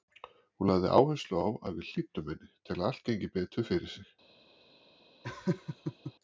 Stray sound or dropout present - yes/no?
yes